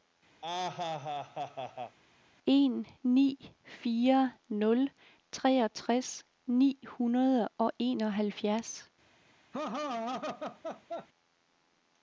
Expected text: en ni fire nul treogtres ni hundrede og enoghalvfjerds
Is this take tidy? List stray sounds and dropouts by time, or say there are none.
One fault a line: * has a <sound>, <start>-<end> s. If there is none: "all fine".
* has a laugh, 0.4-2.0 s
* has a laugh, 9.5-11.1 s